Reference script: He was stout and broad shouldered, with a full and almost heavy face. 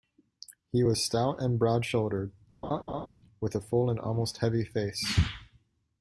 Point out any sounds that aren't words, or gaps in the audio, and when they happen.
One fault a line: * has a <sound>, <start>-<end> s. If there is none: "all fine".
* has a laugh, 2.6-3.1 s